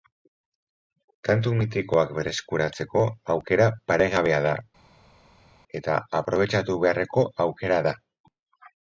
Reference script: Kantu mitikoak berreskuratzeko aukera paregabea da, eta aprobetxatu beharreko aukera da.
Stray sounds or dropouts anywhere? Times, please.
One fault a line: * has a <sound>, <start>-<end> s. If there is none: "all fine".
all fine